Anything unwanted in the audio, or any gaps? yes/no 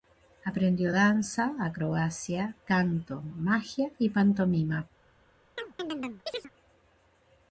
yes